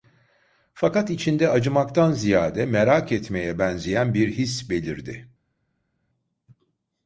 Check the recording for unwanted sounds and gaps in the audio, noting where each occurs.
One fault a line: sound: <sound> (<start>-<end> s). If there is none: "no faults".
no faults